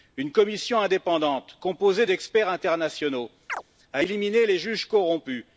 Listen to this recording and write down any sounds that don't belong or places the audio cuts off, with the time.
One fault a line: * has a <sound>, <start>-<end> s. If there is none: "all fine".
* has a chirp, 3.5-3.6 s